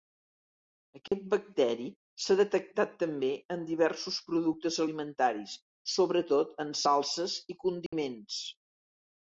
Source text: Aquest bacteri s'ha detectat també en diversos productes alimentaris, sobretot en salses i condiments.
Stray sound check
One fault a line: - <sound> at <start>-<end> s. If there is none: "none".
- dropout at 1.1-1.1 s
- dropout at 7.9-7.9 s